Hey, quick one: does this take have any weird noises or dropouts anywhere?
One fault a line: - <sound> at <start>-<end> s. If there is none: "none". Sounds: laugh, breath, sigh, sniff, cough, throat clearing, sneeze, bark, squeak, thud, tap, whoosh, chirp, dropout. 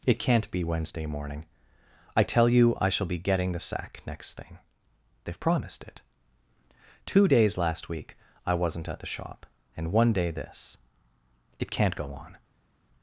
none